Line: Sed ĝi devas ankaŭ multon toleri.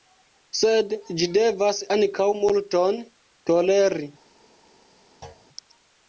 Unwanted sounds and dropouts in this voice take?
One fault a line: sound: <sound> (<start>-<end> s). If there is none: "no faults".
sound: thud (5.2-5.5 s)